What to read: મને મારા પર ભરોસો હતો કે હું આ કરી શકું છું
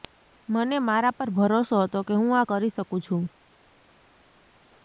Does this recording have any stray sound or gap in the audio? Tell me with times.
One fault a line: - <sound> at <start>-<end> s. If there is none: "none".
none